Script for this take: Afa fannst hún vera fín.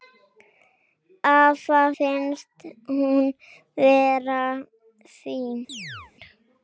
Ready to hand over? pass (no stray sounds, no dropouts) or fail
fail